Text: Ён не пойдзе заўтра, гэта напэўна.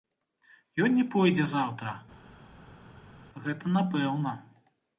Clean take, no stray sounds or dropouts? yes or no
yes